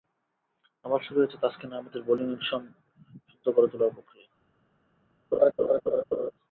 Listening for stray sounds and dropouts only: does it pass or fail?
fail